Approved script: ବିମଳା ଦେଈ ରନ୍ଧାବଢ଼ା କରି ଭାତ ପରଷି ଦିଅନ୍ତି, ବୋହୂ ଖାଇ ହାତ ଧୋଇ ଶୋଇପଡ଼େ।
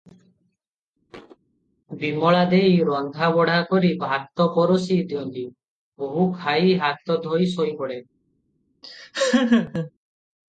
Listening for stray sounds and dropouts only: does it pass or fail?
fail